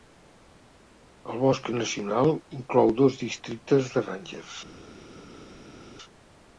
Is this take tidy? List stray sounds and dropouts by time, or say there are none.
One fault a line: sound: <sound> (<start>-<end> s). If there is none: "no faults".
no faults